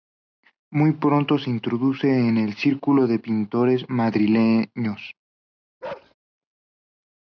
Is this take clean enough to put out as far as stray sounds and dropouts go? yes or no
no